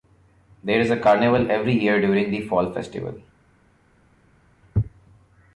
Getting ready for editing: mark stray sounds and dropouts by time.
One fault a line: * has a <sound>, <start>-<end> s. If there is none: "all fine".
all fine